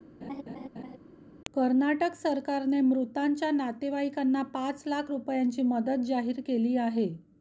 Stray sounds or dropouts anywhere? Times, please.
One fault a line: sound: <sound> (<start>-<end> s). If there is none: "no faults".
sound: laugh (0.2-1.0 s)